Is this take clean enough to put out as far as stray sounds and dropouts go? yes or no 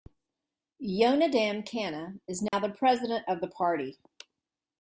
no